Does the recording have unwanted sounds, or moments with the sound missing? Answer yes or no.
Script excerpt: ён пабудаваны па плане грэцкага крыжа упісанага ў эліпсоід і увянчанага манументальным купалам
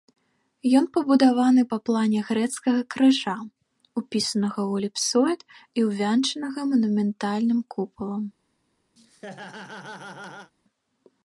yes